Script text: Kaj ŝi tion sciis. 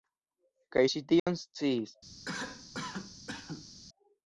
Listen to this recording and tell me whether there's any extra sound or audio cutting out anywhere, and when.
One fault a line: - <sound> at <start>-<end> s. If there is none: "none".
- dropout at 1.2-1.3 s
- cough at 2.3-3.7 s